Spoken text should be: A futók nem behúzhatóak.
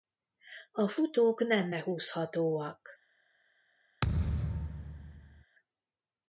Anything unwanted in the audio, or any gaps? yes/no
yes